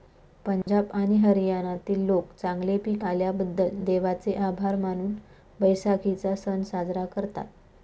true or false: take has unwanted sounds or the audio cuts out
true